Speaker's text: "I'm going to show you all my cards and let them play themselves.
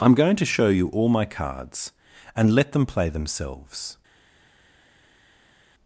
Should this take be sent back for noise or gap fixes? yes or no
no